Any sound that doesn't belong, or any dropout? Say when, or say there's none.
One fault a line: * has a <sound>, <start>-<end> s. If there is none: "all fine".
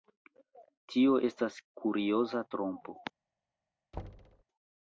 * has a thud, 3.9-4.4 s